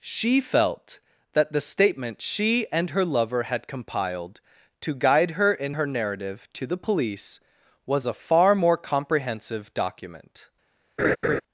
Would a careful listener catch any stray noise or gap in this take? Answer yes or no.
yes